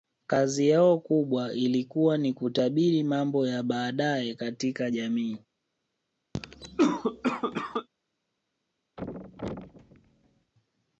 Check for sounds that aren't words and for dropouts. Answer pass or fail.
fail